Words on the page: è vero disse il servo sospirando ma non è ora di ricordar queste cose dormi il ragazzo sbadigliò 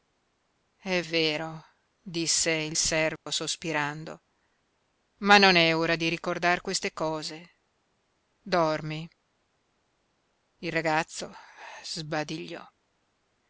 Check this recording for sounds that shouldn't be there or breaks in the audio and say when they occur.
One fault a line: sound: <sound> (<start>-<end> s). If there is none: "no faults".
sound: dropout (3.2-3.3 s)